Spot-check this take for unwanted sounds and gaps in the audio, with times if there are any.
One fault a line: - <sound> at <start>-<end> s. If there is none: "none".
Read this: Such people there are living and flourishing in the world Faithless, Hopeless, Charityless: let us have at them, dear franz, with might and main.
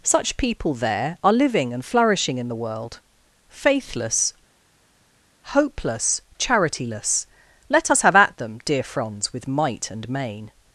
none